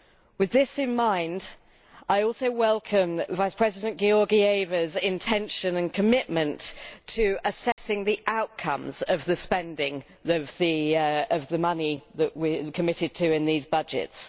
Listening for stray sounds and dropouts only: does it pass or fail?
fail